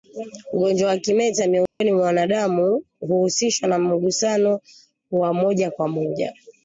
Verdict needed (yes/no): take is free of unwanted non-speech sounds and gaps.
no